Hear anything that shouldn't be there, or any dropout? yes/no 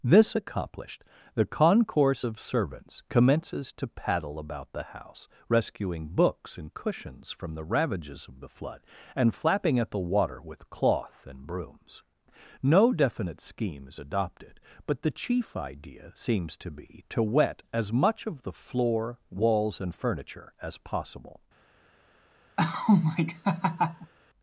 yes